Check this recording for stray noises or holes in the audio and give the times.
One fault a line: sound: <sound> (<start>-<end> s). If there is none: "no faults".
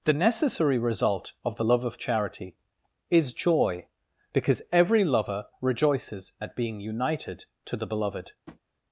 sound: tap (8.5-8.6 s)